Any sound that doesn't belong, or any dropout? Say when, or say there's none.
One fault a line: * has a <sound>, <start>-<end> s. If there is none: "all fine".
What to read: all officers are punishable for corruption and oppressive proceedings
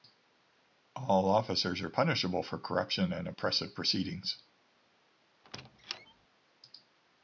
* has a squeak, 5.4-6.3 s